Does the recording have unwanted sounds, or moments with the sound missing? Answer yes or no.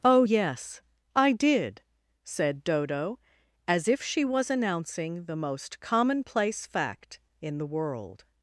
no